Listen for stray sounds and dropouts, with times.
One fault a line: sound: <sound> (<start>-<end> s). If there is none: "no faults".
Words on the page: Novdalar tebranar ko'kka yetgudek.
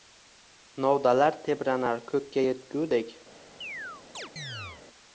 sound: chirp (3.6-4.8 s)